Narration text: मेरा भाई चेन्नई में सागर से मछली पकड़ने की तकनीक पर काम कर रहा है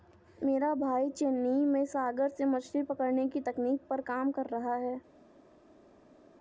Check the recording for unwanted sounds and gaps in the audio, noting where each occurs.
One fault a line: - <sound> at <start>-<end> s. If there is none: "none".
none